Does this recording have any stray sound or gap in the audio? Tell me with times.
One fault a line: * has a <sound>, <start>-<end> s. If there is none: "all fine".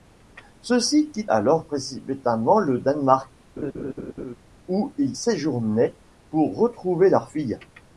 * has a laugh, 3.6-4.4 s